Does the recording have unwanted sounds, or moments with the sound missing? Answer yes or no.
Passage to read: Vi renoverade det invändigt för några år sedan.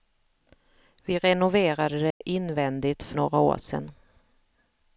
yes